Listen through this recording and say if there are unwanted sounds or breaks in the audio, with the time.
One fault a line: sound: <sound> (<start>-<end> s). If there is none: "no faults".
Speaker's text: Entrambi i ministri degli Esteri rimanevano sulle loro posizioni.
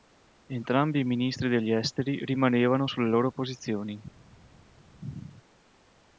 no faults